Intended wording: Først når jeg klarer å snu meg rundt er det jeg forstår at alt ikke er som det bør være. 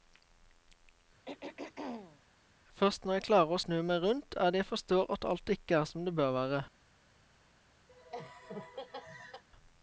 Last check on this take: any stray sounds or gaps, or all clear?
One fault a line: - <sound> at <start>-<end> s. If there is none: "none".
- throat clearing at 1.3-2.2 s
- laugh at 7.9-9.4 s